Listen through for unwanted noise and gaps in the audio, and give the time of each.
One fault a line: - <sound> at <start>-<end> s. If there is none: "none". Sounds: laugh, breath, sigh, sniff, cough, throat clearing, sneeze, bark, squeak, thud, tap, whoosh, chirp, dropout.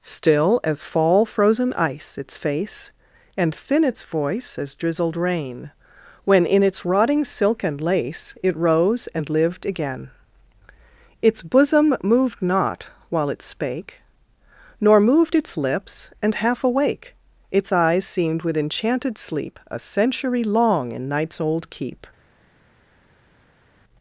none